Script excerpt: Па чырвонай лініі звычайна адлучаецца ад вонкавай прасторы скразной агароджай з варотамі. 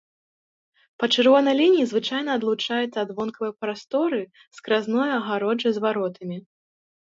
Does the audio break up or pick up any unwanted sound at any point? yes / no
no